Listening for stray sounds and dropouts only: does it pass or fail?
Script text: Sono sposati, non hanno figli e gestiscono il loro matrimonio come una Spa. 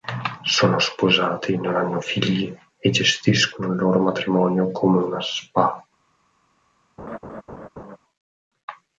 fail